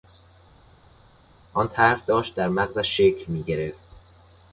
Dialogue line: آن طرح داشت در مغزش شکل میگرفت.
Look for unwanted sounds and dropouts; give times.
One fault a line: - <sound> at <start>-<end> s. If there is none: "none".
none